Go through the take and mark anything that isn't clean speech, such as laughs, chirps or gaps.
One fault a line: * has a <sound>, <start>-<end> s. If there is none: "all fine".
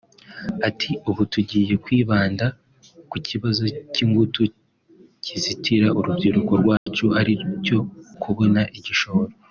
* has a dropout, 6.8-6.9 s